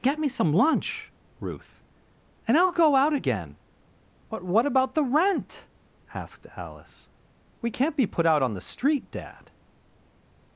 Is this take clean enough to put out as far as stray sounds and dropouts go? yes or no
yes